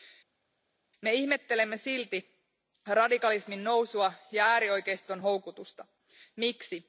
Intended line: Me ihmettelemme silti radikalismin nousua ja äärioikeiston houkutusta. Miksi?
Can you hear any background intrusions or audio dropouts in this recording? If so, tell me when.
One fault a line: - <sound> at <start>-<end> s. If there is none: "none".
none